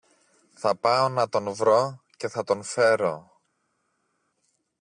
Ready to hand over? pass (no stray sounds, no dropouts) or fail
pass